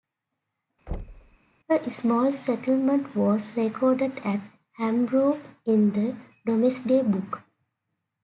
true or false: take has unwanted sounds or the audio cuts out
true